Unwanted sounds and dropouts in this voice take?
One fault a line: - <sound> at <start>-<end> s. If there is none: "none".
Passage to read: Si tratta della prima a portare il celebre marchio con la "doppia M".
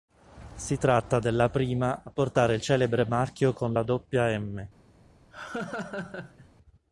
- laugh at 5.3-6.5 s